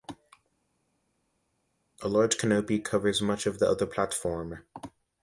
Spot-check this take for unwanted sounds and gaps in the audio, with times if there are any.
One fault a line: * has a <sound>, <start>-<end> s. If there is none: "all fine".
all fine